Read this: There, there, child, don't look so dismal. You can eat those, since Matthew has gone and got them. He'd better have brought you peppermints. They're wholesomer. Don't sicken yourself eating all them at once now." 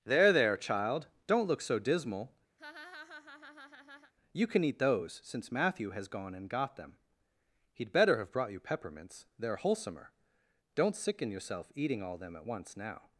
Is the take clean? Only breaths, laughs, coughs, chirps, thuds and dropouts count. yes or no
no